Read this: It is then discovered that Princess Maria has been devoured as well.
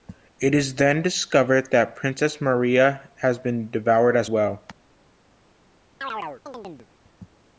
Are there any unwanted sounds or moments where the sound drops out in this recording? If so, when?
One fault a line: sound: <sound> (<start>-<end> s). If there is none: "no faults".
sound: chirp (6.0-6.9 s)